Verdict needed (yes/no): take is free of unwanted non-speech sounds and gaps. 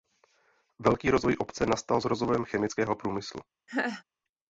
no